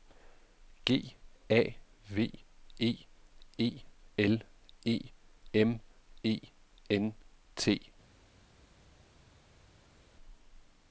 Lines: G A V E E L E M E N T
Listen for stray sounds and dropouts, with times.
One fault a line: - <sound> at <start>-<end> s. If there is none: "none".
none